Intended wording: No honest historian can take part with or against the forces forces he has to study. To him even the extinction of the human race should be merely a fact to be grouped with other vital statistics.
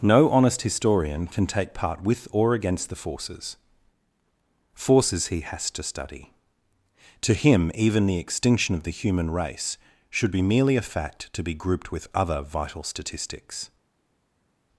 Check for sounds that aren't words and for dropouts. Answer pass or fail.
pass